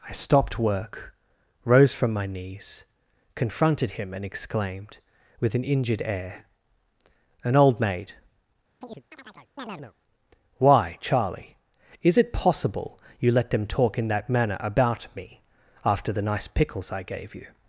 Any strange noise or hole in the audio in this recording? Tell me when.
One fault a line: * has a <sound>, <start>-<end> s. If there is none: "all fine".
* has a chirp, 8.8-9.9 s